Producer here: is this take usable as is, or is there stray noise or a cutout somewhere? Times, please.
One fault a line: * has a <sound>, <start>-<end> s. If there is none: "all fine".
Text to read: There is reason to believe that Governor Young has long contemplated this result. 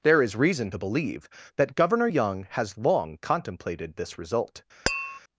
* has a tap, 4.9-5.2 s